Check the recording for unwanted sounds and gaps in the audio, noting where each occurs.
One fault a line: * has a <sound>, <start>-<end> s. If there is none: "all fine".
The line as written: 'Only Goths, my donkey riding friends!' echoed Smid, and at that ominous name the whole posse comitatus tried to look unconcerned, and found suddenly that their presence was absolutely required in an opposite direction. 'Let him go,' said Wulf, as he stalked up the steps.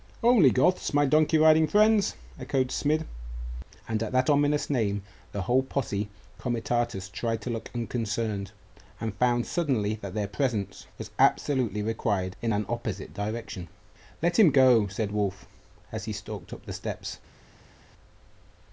all fine